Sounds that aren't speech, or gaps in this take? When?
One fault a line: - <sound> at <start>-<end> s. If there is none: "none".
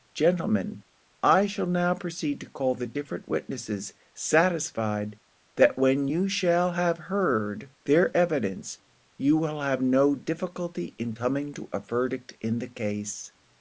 none